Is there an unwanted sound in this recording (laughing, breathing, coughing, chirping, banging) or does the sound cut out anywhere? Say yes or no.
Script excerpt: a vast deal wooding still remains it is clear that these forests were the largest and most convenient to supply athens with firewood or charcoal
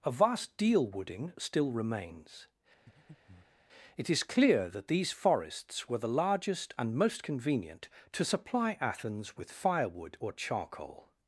yes